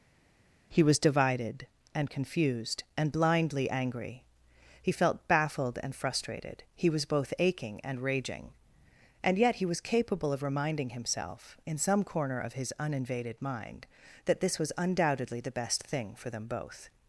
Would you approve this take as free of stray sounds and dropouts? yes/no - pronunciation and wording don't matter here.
yes